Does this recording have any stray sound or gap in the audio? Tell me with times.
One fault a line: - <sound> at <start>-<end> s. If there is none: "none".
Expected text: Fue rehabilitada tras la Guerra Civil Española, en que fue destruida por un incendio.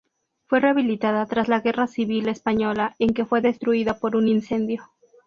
none